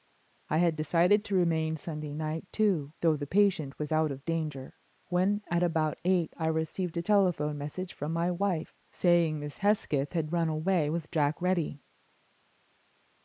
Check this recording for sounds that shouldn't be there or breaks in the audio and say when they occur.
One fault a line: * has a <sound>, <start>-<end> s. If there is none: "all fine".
all fine